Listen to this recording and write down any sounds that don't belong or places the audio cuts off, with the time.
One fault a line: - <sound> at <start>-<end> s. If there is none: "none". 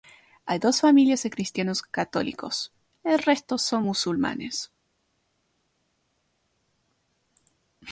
none